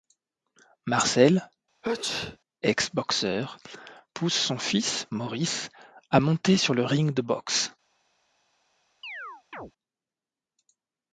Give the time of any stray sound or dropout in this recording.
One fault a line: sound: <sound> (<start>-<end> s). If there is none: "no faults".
sound: sneeze (1.8-2.4 s)
sound: chirp (9.0-9.7 s)